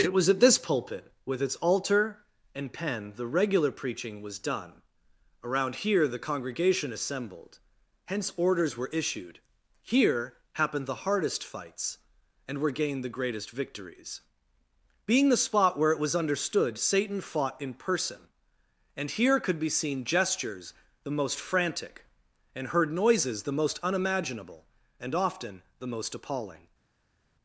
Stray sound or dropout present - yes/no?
no